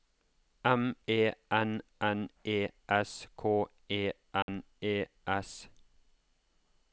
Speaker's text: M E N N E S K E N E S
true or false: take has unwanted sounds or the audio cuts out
true